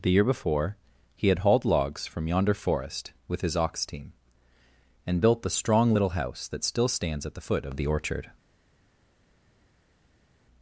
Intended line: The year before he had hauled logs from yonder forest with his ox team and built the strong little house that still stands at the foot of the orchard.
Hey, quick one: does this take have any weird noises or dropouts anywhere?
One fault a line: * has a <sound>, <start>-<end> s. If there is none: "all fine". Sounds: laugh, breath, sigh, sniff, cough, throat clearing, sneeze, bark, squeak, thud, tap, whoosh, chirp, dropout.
all fine